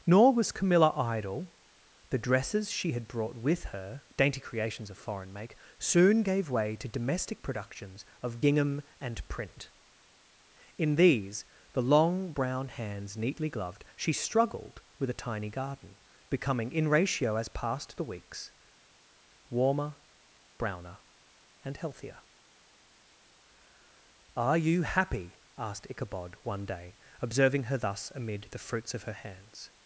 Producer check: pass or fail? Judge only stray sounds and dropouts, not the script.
pass